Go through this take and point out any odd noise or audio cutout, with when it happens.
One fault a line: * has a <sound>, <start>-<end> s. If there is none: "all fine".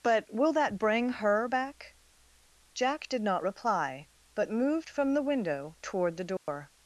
* has a dropout, 6.4-6.5 s